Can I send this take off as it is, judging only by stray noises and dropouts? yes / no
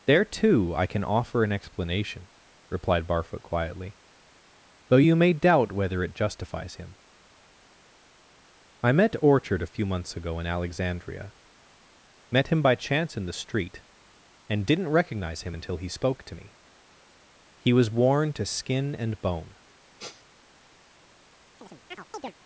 no